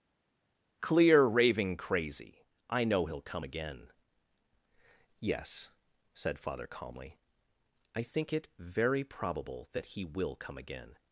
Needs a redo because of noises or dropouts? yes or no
no